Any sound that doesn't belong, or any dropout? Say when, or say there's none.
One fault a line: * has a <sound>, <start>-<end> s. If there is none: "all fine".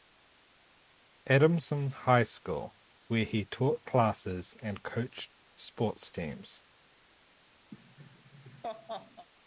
* has a laugh, 7.7-9.3 s